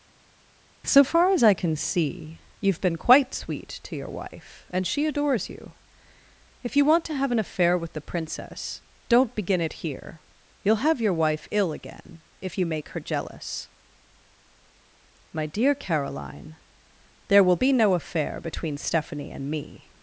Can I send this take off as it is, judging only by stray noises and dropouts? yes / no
yes